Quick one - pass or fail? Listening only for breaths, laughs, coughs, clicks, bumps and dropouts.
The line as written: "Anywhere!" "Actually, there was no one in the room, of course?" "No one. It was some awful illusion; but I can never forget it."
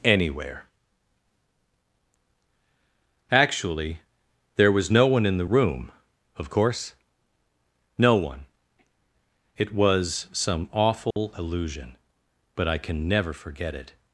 fail